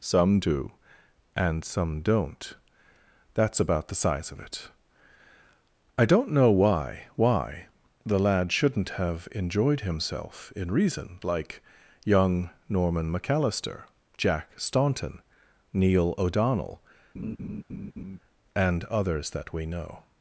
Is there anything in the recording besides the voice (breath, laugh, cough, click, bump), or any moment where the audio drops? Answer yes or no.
yes